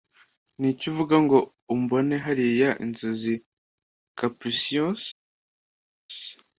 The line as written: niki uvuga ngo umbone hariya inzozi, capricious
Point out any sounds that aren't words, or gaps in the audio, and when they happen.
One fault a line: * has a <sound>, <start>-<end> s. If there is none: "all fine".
all fine